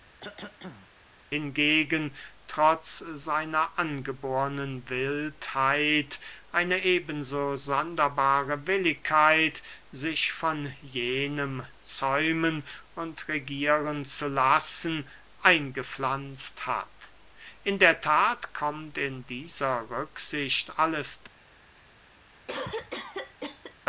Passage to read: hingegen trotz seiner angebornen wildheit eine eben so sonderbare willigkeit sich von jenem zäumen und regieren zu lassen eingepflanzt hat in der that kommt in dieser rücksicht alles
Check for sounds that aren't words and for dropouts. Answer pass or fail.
fail